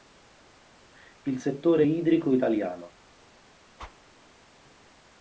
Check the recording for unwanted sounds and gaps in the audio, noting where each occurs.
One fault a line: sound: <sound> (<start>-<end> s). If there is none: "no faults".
sound: whoosh (3.8-4.0 s)